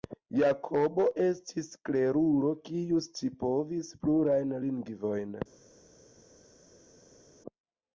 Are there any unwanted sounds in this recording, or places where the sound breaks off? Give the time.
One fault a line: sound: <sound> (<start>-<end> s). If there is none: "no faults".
no faults